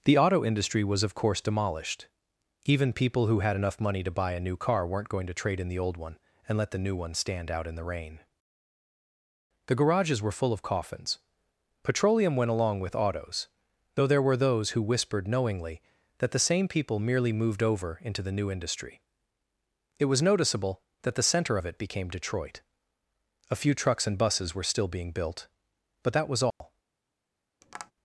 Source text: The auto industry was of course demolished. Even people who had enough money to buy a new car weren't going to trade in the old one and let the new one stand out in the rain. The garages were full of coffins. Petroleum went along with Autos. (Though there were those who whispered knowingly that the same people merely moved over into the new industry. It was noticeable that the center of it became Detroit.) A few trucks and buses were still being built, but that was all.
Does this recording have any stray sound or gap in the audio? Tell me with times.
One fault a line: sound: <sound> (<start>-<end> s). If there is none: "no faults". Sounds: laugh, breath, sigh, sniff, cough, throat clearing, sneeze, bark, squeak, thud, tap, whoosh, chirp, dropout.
sound: dropout (26.5-26.6 s)
sound: tap (27.6-27.9 s)